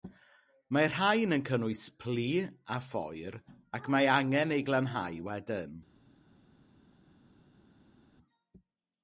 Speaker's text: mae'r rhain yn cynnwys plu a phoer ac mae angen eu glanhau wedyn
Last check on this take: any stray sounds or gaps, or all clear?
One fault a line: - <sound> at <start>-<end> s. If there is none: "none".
none